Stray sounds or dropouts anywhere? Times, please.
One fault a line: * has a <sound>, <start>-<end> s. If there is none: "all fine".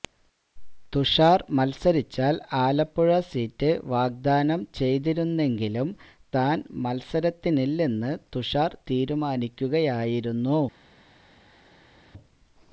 all fine